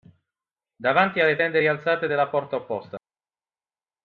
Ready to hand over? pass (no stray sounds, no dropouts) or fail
pass